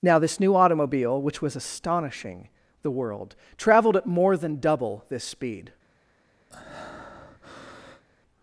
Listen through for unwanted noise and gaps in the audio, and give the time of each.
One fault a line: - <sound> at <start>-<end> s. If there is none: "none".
- breath at 6.5-8.0 s